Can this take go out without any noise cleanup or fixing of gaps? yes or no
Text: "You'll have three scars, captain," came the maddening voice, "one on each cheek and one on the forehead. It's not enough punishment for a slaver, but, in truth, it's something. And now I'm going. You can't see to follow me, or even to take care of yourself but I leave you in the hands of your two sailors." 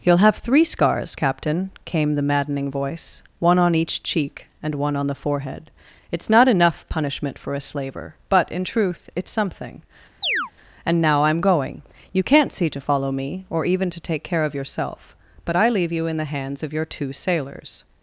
no